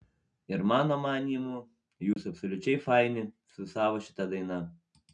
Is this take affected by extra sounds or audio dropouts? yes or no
yes